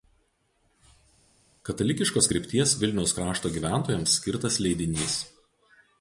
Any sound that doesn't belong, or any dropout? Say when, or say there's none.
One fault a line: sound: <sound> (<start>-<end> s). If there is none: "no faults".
no faults